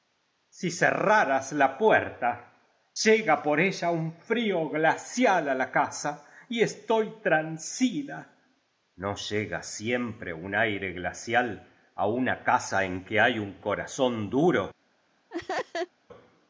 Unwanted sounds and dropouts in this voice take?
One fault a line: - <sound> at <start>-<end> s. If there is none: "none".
- laugh at 15.3-15.9 s